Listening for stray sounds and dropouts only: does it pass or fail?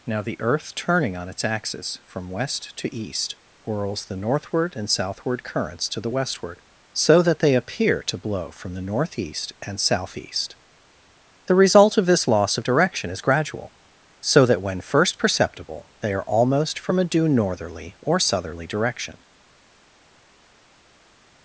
pass